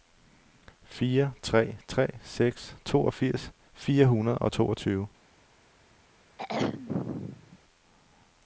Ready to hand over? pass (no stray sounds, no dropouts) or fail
fail